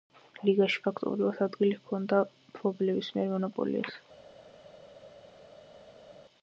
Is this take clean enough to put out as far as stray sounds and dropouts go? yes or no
yes